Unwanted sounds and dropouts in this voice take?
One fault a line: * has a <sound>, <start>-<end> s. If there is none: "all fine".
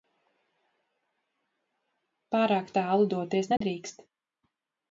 * has a dropout, 3.6-3.6 s